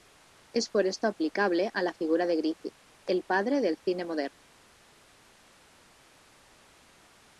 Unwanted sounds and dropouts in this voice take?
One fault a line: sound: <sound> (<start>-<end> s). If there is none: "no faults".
no faults